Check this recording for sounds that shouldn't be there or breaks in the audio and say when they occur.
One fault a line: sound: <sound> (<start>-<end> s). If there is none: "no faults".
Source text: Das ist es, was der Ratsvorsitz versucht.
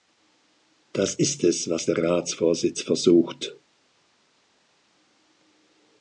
no faults